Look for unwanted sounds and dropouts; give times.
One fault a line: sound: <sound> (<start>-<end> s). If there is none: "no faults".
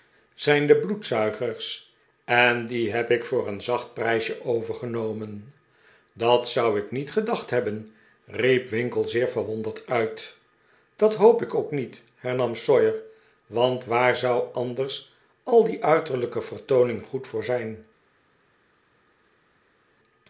no faults